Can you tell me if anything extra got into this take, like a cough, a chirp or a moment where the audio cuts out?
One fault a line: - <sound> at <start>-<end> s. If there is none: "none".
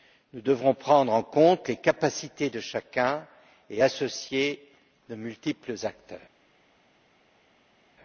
none